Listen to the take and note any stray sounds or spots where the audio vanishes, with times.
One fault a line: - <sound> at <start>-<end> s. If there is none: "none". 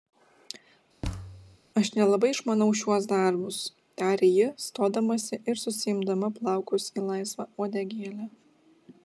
- thud at 1.0-1.6 s